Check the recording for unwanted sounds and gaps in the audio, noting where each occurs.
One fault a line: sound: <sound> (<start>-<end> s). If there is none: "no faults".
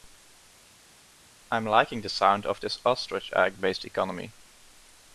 no faults